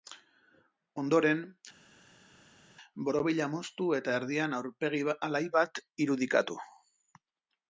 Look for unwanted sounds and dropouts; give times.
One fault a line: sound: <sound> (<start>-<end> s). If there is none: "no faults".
no faults